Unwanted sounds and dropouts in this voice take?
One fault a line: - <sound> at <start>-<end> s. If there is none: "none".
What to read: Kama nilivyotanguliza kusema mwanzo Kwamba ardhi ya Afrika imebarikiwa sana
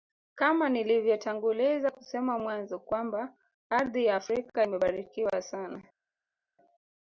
none